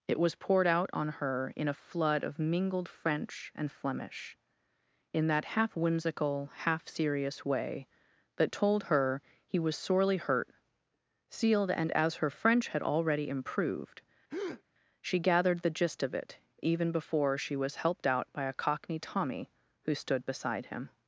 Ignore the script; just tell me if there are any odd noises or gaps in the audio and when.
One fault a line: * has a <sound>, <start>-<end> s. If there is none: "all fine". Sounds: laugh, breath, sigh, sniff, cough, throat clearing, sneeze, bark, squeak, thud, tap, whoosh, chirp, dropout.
* has a breath, 14.3-14.6 s